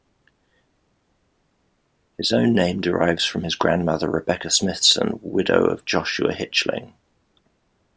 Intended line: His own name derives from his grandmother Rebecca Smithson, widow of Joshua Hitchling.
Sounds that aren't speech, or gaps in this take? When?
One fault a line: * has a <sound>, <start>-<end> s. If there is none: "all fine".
all fine